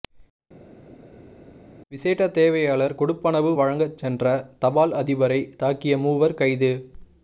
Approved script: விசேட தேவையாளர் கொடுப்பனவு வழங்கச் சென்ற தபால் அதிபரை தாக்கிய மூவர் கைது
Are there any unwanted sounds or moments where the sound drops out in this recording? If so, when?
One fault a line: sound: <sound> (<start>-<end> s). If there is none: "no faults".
no faults